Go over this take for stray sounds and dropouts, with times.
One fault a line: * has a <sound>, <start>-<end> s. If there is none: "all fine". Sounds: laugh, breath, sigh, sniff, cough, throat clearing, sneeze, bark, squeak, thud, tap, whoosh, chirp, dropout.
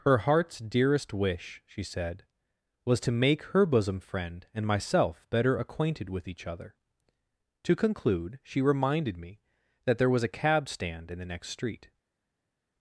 all fine